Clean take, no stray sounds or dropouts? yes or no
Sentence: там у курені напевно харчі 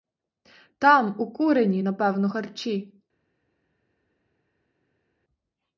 yes